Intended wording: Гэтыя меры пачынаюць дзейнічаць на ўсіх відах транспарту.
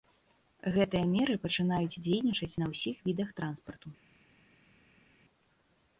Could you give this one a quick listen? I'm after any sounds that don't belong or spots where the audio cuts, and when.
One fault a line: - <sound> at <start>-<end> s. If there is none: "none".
none